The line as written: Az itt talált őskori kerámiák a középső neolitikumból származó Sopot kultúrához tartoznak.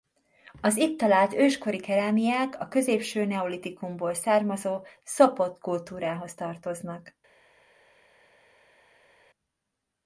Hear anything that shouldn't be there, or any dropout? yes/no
no